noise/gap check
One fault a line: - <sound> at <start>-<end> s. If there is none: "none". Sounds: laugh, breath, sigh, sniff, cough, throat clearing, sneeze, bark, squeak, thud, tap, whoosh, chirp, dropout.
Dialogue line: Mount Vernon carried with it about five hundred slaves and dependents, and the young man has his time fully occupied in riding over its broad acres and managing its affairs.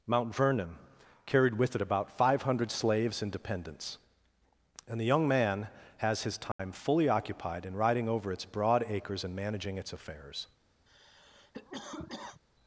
- dropout at 6.5-6.6 s
- cough at 10.9-12.4 s